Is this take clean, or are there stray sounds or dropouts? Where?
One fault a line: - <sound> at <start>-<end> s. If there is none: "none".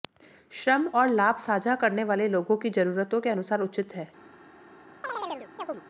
- chirp at 5.0-5.8 s